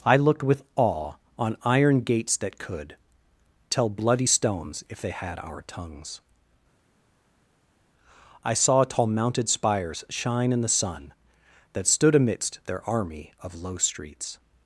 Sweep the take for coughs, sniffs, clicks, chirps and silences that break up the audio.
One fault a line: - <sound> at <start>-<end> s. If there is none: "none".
none